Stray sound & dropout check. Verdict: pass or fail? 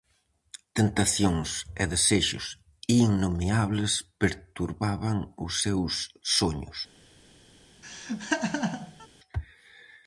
fail